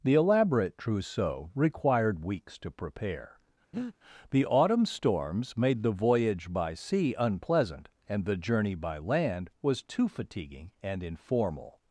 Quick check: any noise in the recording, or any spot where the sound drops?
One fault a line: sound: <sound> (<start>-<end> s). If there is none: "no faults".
sound: breath (3.7-4.0 s)